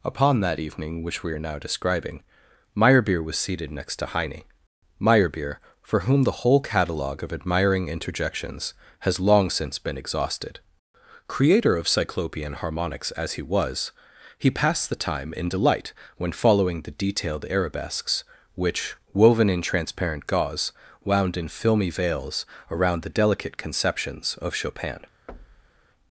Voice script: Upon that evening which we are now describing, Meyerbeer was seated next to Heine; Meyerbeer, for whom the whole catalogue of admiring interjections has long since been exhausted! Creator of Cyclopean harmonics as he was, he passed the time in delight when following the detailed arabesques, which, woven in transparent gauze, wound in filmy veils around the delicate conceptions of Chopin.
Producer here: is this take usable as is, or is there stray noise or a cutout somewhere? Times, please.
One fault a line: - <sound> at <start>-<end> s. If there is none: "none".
- thud at 25.3-25.9 s